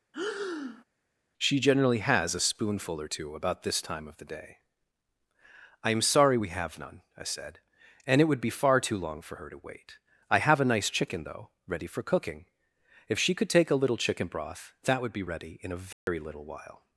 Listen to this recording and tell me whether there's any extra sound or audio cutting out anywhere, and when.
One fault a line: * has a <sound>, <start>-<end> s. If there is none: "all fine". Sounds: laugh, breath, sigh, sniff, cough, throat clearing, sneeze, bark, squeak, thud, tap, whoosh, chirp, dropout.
* has a breath, 0.1-0.8 s
* has a dropout, 15.9-16.1 s